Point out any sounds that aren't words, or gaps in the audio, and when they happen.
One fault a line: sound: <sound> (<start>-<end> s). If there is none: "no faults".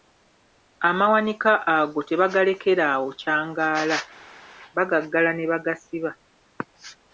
no faults